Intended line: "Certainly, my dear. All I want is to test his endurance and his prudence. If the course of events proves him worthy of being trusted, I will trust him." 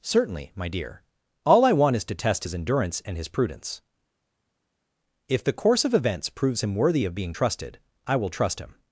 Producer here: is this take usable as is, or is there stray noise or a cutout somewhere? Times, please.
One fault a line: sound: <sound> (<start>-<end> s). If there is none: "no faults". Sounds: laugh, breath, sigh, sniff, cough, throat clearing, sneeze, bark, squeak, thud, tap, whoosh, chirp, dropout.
no faults